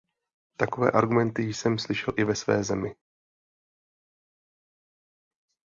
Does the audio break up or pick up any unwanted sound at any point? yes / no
no